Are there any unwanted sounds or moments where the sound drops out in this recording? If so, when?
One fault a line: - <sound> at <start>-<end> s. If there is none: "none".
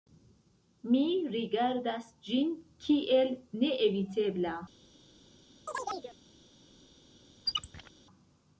- chirp at 5.7-6.2 s
- squeak at 7.5-7.9 s